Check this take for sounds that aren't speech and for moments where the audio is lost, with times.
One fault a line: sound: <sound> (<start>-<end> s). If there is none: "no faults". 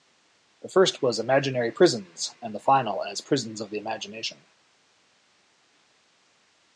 no faults